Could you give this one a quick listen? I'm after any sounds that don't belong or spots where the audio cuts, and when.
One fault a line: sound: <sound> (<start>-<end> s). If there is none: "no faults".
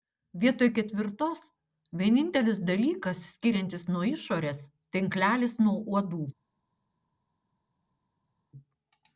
no faults